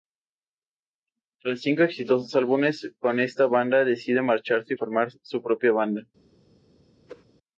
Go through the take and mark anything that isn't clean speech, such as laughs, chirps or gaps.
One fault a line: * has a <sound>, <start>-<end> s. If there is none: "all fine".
* has a whoosh, 7.1-7.2 s